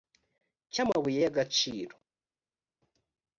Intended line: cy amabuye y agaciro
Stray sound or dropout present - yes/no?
no